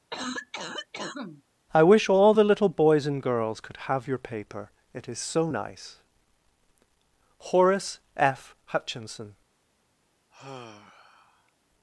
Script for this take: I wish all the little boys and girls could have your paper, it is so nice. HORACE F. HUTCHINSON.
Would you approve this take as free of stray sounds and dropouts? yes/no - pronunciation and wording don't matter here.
no